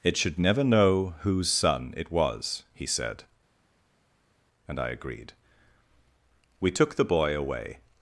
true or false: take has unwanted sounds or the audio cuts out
false